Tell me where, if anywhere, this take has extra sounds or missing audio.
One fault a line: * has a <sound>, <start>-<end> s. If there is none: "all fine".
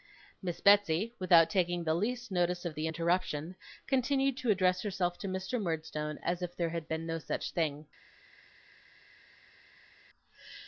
all fine